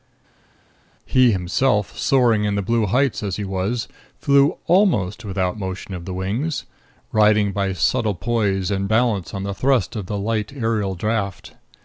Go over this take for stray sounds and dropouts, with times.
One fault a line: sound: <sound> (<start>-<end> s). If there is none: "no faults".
no faults